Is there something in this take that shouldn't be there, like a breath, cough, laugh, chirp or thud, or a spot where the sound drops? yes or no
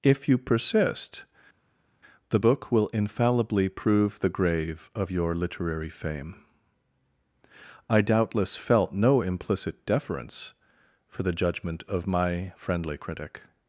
no